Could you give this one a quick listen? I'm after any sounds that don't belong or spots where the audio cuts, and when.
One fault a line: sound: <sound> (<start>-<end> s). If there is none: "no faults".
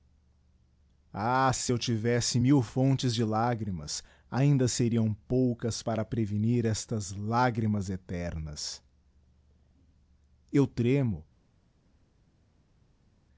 no faults